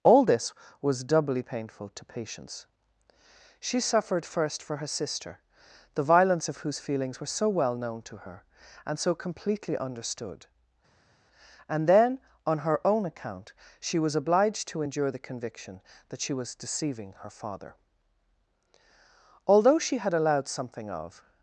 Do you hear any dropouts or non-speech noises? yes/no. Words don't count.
no